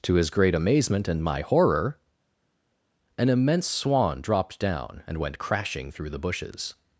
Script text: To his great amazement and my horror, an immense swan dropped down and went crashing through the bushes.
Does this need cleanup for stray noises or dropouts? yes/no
no